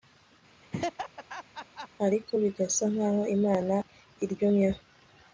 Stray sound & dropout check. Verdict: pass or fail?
fail